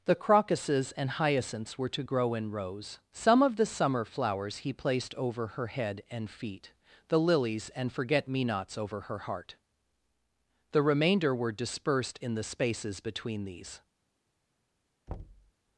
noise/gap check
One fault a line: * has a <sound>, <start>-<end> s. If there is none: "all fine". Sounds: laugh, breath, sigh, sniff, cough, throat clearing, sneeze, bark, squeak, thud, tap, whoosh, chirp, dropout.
* has a thud, 15.1-15.5 s